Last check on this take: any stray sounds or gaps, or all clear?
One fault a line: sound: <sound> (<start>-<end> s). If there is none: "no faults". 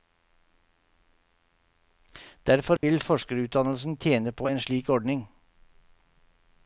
sound: dropout (2.8-2.8 s)